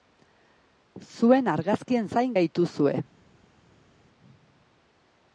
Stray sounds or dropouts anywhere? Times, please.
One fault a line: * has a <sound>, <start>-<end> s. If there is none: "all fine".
all fine